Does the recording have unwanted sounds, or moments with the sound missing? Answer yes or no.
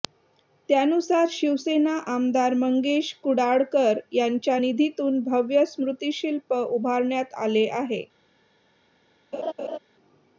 yes